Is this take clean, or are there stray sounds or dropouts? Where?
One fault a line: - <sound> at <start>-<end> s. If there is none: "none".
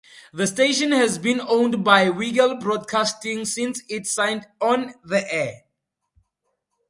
none